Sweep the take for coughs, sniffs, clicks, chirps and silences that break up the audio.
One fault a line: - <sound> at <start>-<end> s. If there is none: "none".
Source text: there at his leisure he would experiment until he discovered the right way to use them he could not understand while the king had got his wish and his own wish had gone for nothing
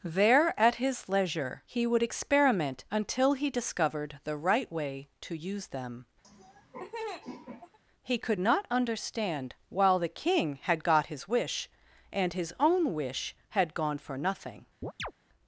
- laugh at 6.2-7.8 s
- chirp at 14.8-15.1 s